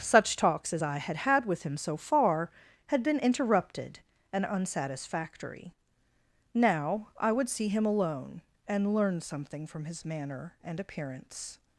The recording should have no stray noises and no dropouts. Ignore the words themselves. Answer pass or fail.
pass